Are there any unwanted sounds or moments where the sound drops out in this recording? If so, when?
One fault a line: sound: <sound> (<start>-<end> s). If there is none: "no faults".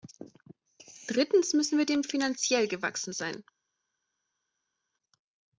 no faults